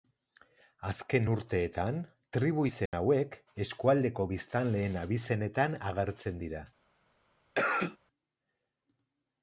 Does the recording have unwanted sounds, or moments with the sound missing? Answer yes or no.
yes